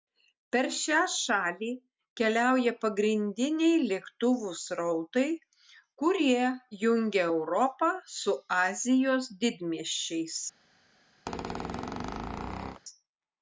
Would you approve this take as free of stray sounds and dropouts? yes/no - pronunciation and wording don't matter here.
no